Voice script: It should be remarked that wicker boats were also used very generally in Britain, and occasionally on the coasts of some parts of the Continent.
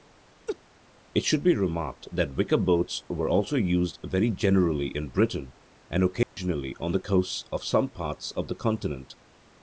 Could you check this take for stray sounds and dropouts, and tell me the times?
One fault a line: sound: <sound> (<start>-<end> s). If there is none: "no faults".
sound: laugh (0.5-0.6 s)
sound: dropout (6.2-6.4 s)